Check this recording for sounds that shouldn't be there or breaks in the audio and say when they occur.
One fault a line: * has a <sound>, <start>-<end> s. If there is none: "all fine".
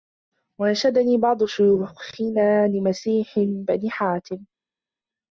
all fine